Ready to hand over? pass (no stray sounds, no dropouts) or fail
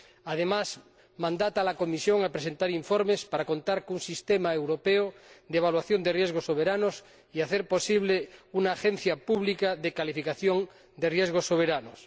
pass